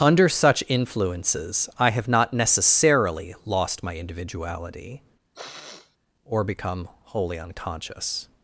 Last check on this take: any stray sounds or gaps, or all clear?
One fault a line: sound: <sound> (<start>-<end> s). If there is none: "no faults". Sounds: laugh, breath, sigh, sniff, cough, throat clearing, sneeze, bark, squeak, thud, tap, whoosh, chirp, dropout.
sound: sniff (5.3-6.0 s)